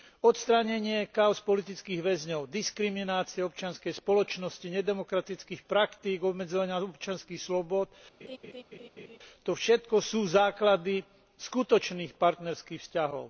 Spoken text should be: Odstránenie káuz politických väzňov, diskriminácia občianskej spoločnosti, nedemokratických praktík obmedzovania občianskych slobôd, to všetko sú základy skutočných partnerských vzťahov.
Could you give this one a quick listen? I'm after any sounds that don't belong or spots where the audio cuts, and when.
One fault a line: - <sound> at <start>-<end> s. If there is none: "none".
- laugh at 8.2-9.2 s